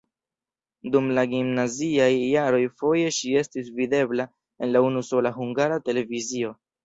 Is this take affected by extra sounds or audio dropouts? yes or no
no